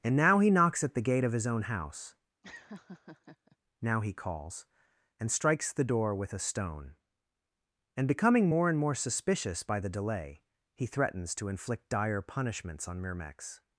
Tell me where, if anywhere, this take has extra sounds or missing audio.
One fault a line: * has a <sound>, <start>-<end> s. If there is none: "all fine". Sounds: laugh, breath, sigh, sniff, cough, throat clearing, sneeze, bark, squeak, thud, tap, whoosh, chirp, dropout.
* has a laugh, 2.4-3.6 s